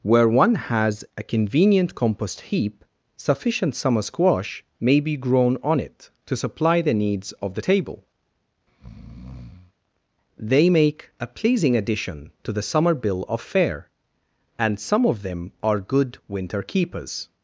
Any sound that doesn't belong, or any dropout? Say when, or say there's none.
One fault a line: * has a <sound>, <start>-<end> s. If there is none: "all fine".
* has a breath, 8.7-9.7 s